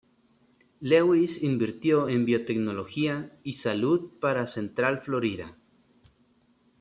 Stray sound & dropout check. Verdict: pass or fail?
pass